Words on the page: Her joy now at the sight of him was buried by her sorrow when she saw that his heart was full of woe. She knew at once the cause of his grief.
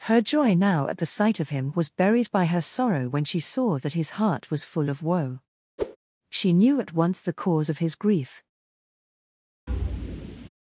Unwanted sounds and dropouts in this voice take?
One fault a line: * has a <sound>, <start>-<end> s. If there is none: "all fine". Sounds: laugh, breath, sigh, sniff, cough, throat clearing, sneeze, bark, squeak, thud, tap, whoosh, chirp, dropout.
* has a whoosh, 5.8-6.0 s
* has a thud, 9.7-10.5 s